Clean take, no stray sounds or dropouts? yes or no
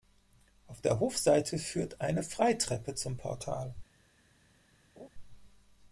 no